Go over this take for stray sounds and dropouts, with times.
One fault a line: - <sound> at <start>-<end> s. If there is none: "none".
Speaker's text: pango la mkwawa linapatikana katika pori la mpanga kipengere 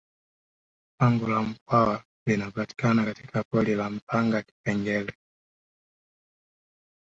none